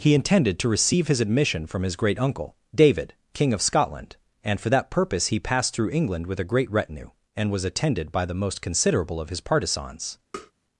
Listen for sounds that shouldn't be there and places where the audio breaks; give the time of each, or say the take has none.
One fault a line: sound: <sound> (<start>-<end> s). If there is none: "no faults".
sound: tap (10.3-10.5 s)